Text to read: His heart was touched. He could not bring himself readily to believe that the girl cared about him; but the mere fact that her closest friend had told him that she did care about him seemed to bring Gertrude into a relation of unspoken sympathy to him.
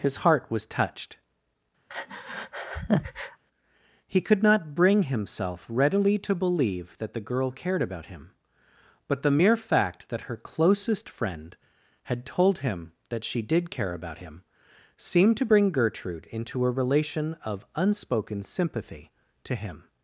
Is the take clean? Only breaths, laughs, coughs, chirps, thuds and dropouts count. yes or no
no